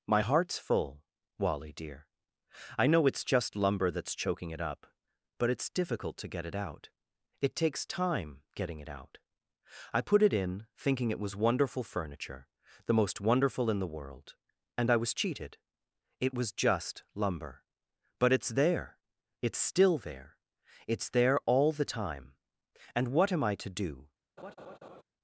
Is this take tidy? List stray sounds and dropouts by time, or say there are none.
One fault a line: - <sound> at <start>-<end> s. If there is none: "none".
- laugh at 24.4-25.0 s